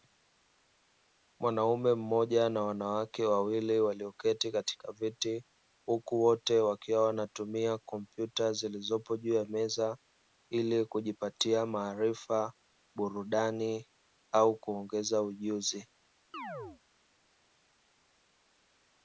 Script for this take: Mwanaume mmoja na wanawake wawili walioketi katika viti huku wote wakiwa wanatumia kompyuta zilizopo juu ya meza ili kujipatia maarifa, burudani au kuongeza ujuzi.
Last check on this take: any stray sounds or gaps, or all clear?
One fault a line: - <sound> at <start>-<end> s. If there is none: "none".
- chirp at 16.3-16.8 s